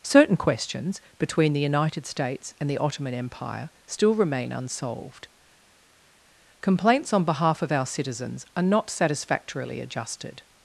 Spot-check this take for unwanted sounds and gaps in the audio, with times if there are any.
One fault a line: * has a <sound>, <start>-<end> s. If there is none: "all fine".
all fine